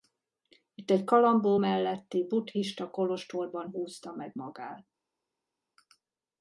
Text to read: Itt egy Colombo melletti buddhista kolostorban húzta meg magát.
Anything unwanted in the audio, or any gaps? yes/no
no